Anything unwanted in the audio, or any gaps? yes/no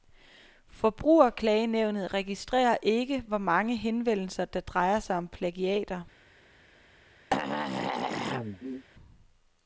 yes